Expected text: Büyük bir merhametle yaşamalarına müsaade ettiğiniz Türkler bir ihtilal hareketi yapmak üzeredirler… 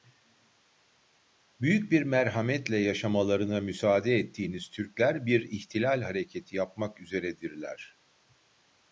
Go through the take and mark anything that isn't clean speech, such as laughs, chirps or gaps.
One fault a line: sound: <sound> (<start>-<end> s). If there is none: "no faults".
no faults